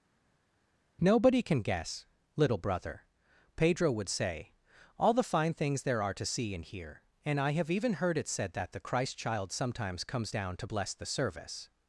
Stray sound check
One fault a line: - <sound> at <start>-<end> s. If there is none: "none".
none